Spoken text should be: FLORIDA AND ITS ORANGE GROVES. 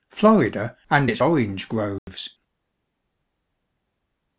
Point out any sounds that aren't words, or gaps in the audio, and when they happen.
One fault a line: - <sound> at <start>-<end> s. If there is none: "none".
- dropout at 2.0-2.1 s